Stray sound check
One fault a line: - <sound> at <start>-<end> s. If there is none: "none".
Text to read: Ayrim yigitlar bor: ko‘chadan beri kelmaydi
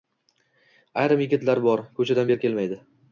none